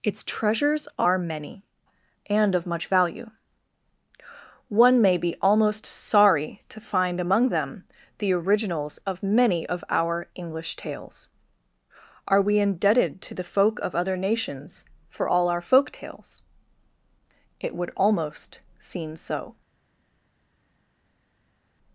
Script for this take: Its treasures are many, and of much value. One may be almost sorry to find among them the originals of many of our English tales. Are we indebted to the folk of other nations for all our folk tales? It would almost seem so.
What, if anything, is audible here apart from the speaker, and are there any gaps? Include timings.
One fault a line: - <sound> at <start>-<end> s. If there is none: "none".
none